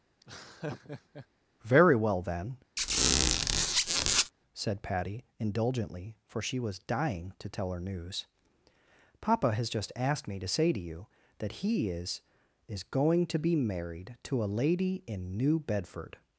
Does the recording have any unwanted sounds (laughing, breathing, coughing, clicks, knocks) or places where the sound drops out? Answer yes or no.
yes